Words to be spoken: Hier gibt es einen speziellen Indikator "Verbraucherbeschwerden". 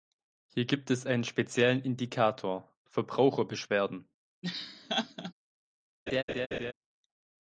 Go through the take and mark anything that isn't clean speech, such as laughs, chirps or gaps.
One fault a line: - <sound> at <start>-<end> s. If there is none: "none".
- laugh at 4.4-5.3 s
- laugh at 6.1-6.7 s